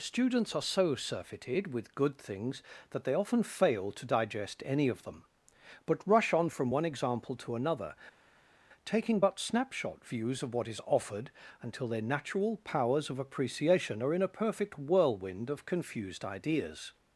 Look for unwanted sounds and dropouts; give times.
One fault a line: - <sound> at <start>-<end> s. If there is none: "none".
none